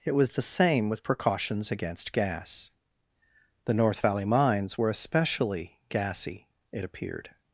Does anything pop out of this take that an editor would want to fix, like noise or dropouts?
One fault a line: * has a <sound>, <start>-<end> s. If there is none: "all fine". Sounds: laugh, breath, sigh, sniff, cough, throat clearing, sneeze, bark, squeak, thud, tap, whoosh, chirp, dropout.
all fine